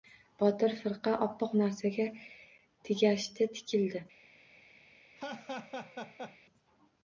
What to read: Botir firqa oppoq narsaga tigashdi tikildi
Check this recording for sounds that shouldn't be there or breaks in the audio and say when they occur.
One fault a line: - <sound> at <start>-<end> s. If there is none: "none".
- laugh at 5.2-6.4 s